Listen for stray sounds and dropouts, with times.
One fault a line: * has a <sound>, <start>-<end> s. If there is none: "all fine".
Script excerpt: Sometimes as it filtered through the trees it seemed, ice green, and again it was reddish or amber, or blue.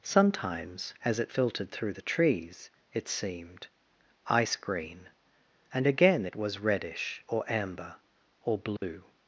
* has a dropout, 8.8-8.8 s